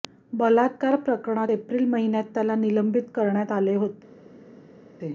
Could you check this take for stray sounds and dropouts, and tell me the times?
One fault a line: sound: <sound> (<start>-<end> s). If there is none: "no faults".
no faults